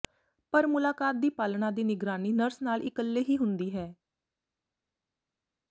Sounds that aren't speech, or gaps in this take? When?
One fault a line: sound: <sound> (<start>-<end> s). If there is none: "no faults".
no faults